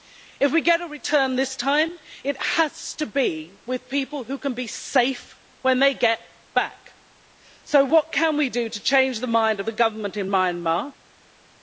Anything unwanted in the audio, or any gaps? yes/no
no